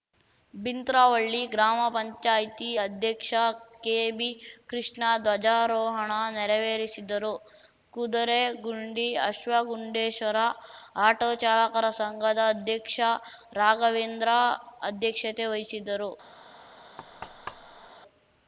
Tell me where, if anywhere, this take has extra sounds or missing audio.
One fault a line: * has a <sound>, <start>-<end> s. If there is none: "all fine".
* has a thud, 17.0-17.9 s